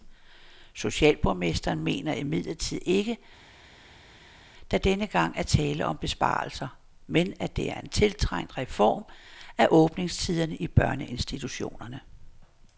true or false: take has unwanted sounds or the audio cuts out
false